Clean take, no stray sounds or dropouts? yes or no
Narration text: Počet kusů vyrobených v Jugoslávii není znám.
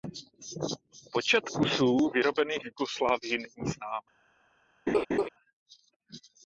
no